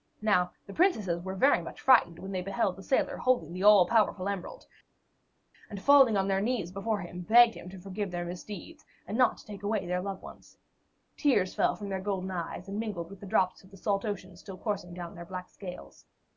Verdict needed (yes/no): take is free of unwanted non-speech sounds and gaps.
yes